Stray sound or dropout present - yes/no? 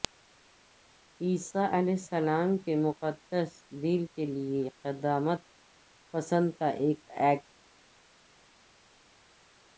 no